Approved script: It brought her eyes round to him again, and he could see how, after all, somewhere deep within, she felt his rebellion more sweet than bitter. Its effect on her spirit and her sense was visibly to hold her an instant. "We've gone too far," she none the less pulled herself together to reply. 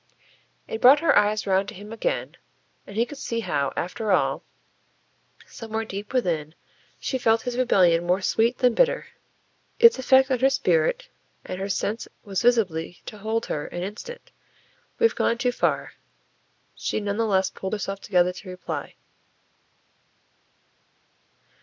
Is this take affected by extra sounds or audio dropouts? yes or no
no